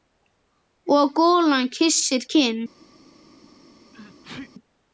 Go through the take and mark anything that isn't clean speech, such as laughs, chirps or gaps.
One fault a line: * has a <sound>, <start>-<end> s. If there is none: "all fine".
* has a sneeze, 3.9-4.5 s